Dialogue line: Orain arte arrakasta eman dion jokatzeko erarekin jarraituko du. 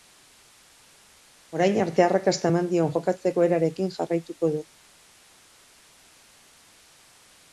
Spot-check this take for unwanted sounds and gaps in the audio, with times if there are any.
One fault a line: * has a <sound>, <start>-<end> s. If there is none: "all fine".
all fine